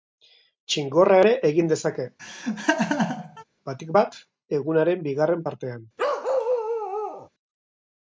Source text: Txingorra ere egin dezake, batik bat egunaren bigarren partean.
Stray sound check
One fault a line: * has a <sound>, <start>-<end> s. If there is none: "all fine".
* has a laugh, 2.2-3.4 s
* has a bark, 6.0-7.3 s